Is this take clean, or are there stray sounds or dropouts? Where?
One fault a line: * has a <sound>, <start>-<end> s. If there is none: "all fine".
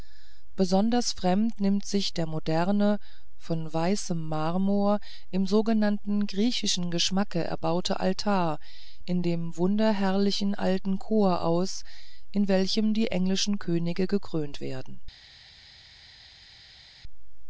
all fine